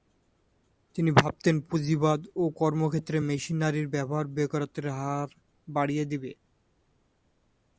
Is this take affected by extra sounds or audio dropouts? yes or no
no